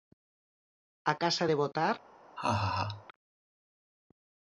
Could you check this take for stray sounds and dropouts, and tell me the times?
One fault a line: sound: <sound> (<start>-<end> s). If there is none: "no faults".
sound: laugh (2.4-3.1 s)